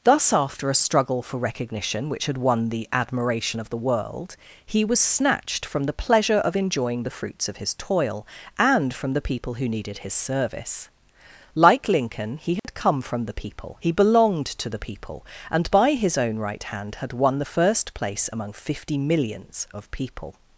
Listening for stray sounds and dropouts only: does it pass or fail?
fail